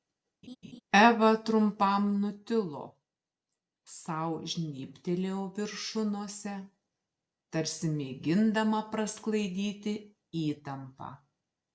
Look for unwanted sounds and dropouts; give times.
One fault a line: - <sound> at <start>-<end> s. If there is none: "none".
- laugh at 0.4-0.8 s